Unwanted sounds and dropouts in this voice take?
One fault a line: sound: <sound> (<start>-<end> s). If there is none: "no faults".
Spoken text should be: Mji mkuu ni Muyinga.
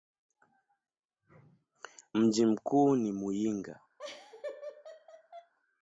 sound: laugh (4.0-5.5 s)